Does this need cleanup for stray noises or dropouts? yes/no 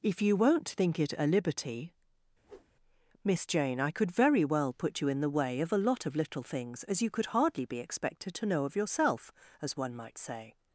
yes